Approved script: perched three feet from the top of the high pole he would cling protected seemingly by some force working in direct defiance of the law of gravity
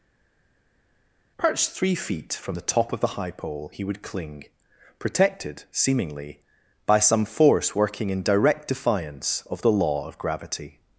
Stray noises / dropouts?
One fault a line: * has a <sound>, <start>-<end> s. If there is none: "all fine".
all fine